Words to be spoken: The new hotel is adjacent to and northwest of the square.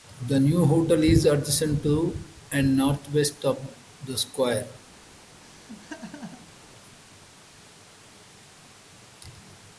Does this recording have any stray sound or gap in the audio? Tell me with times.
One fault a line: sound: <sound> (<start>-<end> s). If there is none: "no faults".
sound: laugh (5.4-6.7 s)